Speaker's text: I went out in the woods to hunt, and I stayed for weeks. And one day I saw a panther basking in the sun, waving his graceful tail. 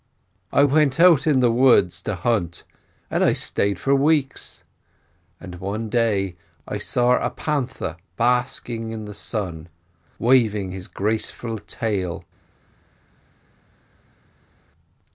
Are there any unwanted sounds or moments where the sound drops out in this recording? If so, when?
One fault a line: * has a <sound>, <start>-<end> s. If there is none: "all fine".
all fine